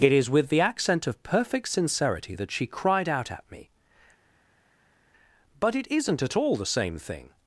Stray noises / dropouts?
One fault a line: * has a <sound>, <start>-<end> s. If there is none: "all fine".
all fine